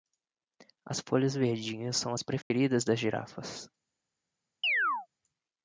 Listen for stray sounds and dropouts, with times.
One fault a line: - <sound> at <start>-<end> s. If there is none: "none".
- dropout at 2.4-2.5 s
- chirp at 4.6-5.1 s